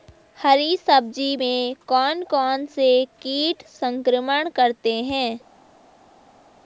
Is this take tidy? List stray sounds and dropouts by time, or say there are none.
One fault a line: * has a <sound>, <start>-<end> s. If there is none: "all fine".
all fine